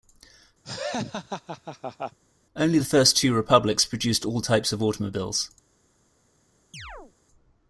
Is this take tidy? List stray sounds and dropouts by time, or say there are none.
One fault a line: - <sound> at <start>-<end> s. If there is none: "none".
- laugh at 0.6-2.2 s
- chirp at 6.7-7.1 s